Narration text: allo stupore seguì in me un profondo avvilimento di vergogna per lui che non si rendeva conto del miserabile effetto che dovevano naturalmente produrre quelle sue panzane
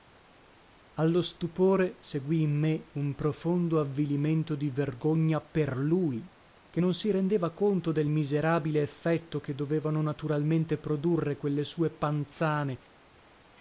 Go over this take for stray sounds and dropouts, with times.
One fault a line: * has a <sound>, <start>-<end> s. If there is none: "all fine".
all fine